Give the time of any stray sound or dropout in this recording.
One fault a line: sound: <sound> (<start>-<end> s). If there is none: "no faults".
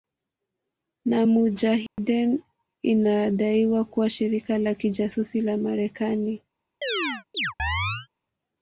sound: dropout (1.9-2.0 s)
sound: chirp (6.8-8.1 s)